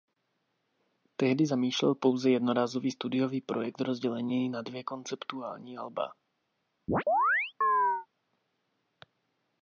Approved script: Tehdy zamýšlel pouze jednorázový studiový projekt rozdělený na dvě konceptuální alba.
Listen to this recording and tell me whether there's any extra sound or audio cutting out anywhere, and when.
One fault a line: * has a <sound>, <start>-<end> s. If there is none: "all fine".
* has a chirp, 6.9-8.1 s